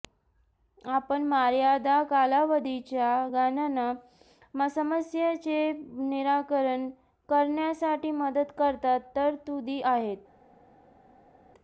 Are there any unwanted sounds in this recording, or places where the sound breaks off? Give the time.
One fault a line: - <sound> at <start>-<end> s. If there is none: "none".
none